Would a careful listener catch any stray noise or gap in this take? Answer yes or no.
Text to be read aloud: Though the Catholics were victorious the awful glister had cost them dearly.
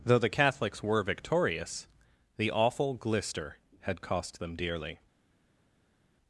no